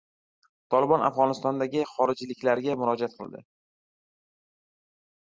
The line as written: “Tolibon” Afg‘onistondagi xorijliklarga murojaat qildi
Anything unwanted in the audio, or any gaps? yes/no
no